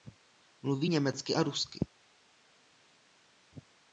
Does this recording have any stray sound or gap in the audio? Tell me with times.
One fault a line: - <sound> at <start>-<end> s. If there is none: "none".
none